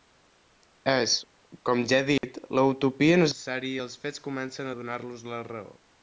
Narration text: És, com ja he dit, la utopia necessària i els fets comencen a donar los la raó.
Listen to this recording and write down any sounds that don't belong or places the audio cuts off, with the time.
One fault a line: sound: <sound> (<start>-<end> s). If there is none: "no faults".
sound: dropout (2.2-2.2 s)